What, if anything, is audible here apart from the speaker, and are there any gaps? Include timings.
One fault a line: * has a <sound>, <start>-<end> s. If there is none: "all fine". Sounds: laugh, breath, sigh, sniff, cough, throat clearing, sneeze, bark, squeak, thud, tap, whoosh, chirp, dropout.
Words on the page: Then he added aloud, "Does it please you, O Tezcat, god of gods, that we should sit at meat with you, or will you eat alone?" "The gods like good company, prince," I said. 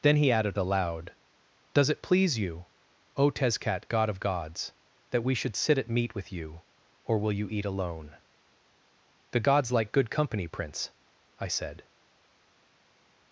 all fine